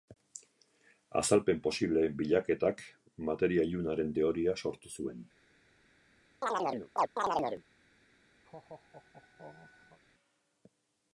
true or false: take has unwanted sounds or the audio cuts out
true